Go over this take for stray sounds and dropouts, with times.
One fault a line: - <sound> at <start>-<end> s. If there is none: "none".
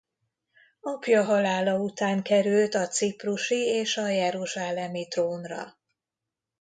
none